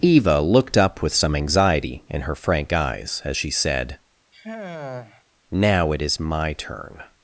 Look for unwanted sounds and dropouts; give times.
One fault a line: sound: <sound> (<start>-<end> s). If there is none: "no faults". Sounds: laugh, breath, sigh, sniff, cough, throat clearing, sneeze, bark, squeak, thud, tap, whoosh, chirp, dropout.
sound: sigh (4.3-5.2 s)